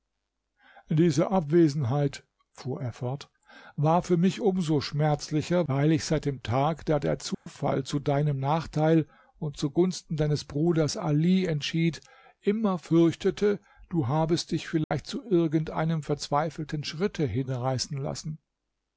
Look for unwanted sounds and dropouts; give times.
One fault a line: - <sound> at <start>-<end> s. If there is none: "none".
- dropout at 7.3-7.5 s
- dropout at 14.8-14.9 s